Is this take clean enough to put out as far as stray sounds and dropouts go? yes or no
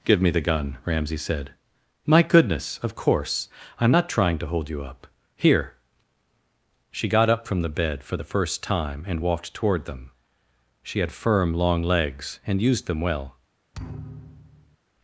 no